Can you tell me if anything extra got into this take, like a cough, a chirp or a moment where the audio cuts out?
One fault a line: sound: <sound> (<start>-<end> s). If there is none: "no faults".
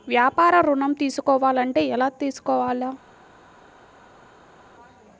no faults